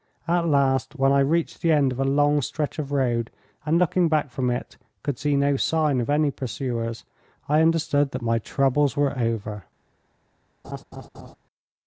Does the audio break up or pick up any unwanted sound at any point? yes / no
yes